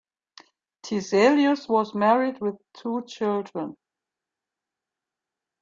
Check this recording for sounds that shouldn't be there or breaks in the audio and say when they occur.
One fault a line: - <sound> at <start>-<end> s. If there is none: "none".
none